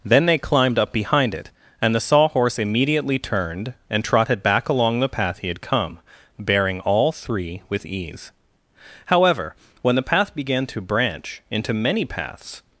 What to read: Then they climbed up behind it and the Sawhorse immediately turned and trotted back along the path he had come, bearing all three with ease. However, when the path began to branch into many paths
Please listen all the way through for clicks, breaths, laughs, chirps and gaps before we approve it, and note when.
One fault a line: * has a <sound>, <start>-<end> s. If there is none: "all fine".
all fine